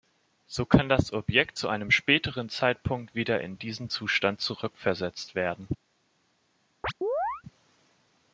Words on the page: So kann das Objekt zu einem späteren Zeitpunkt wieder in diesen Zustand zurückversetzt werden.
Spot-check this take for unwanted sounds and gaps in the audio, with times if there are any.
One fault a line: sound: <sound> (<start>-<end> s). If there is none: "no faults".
sound: chirp (6.8-7.4 s)